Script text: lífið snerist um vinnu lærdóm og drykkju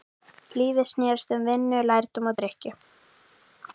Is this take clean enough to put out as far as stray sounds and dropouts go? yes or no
yes